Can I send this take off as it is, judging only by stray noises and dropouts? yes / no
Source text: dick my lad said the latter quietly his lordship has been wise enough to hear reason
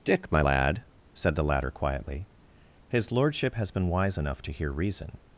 yes